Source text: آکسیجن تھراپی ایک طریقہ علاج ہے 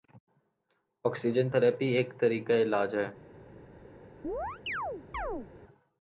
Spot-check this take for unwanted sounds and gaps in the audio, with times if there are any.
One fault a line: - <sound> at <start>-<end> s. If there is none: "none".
- chirp at 4.2-5.5 s